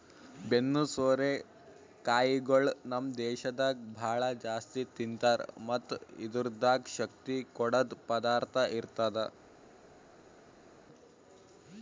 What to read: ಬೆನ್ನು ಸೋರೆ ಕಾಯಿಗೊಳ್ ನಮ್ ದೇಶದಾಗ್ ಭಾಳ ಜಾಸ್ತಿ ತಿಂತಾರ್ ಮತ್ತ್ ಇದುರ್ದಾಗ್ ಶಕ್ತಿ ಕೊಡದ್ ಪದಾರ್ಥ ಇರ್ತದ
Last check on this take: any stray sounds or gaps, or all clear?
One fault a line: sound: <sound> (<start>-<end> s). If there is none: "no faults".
no faults